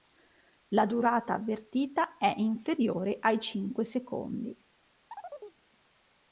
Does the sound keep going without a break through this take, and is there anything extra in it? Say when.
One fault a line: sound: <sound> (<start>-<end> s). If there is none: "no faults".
sound: chirp (5.1-5.6 s)